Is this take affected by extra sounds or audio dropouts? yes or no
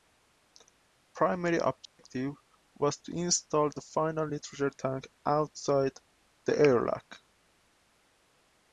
yes